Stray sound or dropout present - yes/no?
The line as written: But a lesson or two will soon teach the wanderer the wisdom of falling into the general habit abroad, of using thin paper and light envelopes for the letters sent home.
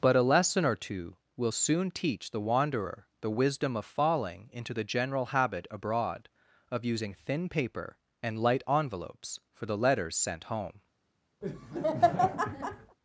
yes